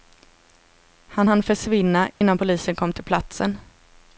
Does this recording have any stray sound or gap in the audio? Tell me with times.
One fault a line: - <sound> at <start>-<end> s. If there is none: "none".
- dropout at 2.1-2.2 s